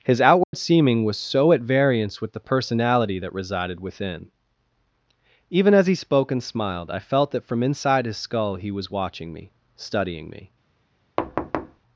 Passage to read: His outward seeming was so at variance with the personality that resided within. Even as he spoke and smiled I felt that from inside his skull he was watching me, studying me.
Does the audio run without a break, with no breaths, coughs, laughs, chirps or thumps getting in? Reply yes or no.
no